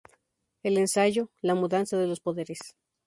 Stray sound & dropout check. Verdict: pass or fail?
pass